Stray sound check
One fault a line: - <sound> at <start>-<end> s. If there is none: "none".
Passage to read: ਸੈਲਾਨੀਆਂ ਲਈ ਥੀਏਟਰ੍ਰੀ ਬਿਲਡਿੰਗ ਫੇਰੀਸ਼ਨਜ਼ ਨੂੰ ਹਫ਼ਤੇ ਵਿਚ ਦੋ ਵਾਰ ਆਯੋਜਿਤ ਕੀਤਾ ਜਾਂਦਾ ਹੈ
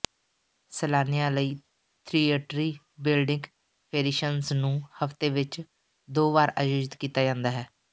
none